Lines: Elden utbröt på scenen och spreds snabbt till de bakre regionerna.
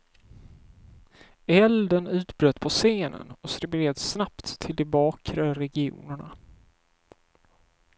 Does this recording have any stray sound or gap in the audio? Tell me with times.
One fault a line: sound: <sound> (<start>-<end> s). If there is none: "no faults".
no faults